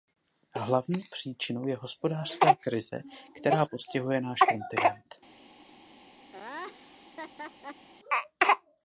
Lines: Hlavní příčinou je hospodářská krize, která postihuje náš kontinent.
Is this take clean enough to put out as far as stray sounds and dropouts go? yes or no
no